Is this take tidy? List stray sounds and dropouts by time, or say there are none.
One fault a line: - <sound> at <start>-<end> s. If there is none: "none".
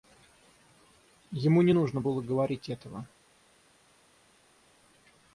none